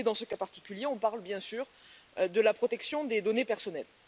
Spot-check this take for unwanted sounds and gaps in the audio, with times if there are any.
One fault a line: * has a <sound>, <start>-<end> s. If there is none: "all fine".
all fine